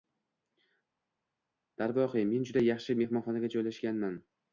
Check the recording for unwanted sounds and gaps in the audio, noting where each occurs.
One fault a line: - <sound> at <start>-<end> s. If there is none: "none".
none